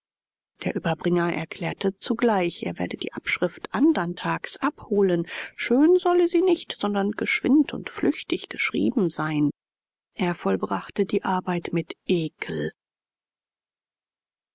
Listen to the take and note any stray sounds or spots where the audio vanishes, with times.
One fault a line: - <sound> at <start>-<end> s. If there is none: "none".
none